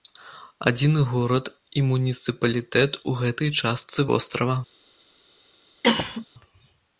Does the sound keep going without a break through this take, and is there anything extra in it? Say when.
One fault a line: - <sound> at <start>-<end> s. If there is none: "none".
- cough at 5.8-6.3 s